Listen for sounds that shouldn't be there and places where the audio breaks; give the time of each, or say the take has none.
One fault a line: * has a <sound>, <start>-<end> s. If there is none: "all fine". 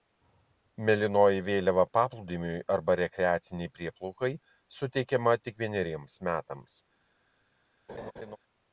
* has a laugh, 7.9-8.4 s